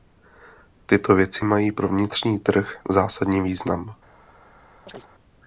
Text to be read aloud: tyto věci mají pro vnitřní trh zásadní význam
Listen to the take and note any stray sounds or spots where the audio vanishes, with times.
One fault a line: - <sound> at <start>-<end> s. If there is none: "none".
- chirp at 4.9-5.1 s